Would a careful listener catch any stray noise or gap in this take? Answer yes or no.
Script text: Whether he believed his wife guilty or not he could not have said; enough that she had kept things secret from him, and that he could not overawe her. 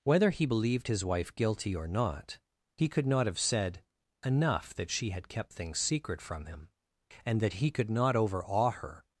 no